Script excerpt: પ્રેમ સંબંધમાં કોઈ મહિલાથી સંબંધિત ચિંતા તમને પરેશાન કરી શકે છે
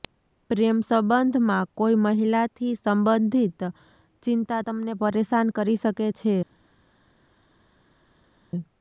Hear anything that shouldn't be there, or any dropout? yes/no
no